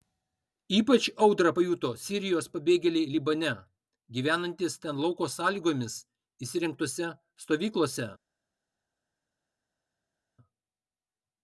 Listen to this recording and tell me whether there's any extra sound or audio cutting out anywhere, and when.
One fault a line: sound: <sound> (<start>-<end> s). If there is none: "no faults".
no faults